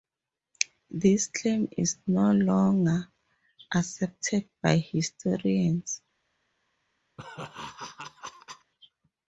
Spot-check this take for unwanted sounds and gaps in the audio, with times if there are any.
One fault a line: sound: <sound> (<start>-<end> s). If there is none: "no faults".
sound: laugh (7.2-8.7 s)